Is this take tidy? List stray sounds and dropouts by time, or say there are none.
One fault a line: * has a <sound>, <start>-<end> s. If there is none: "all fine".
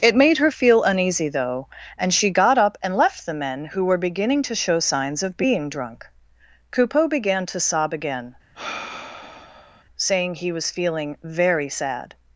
* has a sigh, 8.5-9.8 s